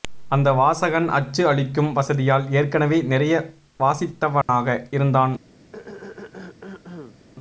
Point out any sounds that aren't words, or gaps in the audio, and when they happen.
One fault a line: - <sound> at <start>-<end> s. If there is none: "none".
- dropout at 4.4-4.5 s
- throat clearing at 5.7-7.2 s